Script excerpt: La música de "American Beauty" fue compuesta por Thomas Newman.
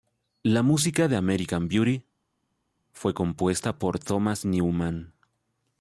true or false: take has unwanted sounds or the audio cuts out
false